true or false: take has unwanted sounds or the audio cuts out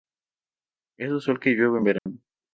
true